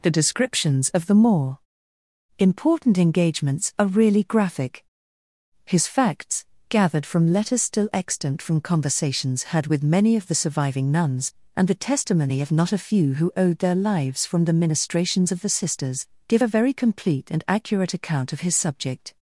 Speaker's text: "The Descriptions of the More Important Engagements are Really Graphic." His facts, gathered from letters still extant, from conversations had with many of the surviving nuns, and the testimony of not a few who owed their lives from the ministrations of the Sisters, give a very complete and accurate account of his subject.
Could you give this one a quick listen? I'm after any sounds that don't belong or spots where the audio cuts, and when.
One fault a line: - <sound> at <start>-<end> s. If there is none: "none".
none